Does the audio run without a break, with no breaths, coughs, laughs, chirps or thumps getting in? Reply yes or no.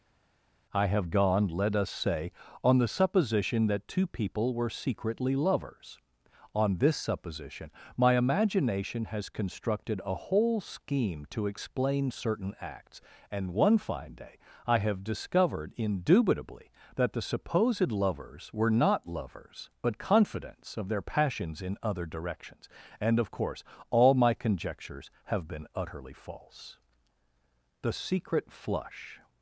yes